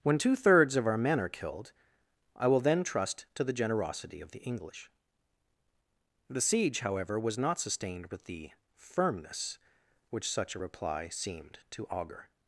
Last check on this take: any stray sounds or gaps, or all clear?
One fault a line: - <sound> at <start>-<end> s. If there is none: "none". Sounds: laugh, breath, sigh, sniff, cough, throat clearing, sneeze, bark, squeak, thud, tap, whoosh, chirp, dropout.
none